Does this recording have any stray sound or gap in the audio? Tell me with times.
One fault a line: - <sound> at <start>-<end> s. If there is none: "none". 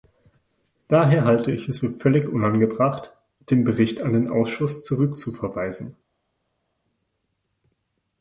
none